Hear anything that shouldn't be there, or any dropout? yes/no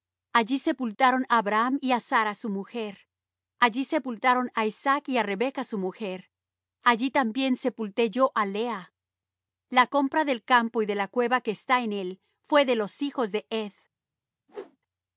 yes